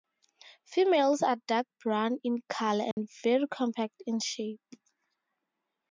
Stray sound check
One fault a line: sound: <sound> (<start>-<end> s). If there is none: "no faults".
sound: dropout (2.9-3.0 s)